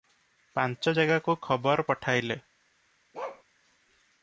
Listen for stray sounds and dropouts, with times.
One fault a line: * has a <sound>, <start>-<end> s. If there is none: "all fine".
* has a bark, 3.1-3.4 s